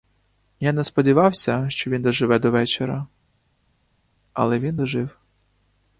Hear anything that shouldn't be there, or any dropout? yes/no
no